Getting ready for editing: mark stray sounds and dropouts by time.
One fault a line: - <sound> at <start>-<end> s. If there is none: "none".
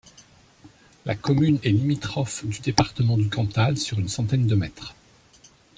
none